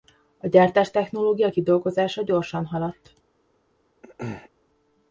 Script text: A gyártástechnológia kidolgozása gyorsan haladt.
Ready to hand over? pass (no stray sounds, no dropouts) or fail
fail